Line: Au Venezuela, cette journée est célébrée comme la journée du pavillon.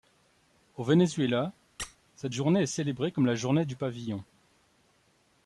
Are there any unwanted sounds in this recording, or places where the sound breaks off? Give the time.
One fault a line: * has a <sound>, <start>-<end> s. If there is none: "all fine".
* has a squeak, 1.8-2.0 s